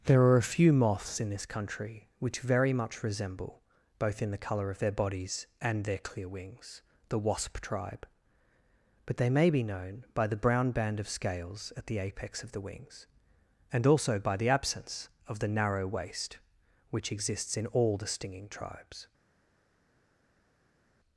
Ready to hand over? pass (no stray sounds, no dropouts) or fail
pass